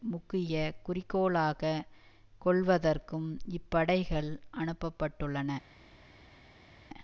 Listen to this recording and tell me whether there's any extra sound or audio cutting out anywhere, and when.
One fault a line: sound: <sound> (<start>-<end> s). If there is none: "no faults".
no faults